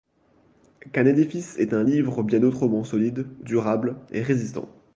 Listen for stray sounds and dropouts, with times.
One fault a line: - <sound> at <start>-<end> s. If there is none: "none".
none